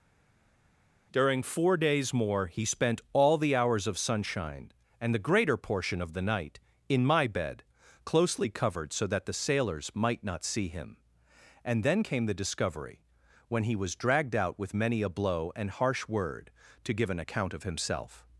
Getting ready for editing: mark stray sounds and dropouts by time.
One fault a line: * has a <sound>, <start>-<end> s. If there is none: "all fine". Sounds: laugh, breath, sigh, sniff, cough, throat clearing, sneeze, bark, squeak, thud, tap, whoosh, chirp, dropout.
all fine